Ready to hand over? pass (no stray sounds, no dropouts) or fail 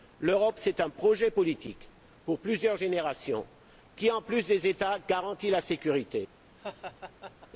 fail